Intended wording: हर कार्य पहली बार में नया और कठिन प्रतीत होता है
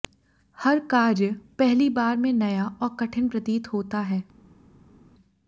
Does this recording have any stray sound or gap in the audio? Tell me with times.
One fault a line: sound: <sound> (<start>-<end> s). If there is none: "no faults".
no faults